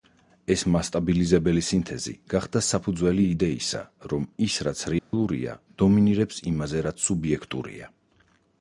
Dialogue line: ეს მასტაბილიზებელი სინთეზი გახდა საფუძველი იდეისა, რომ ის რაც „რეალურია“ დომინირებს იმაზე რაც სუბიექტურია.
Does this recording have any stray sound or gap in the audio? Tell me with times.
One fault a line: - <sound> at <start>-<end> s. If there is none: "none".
- dropout at 5.0-5.1 s